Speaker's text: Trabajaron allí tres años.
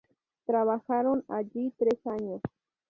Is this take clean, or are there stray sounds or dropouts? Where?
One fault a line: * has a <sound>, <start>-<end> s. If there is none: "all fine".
all fine